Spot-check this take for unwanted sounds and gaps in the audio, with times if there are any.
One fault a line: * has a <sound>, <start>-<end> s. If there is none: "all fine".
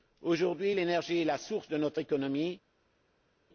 all fine